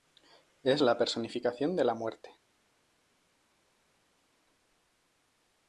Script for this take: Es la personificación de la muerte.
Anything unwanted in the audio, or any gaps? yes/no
no